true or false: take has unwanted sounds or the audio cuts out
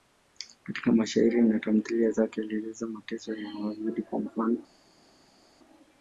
false